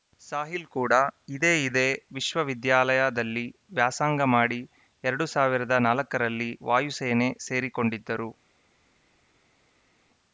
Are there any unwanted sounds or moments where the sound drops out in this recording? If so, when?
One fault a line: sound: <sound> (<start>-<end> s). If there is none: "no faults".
no faults